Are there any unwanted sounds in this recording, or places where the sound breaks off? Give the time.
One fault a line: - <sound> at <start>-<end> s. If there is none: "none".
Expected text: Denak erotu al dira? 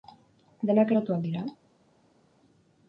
none